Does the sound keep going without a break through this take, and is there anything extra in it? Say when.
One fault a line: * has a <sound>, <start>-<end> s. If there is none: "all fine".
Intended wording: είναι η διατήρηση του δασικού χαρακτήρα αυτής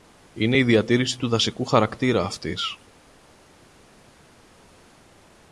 all fine